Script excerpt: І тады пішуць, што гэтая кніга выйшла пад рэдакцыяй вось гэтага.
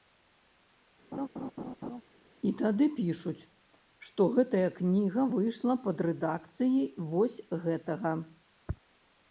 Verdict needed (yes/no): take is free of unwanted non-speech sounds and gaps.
no